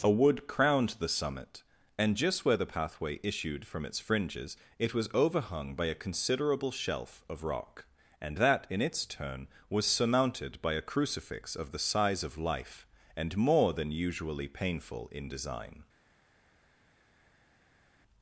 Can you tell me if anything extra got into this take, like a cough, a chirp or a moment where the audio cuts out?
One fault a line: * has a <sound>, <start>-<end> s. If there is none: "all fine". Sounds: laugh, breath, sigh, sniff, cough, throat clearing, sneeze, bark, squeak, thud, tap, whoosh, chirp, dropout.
all fine